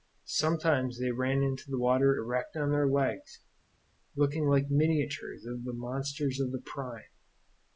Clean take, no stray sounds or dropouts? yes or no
yes